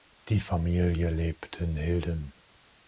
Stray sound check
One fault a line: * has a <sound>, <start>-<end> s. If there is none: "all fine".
all fine